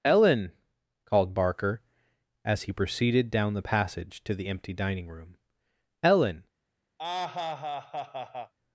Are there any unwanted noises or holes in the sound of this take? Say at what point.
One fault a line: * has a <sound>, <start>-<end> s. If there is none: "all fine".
* has a laugh, 7.0-8.5 s